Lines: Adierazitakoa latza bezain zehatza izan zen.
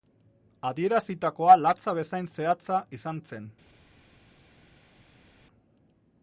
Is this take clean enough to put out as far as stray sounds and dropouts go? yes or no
yes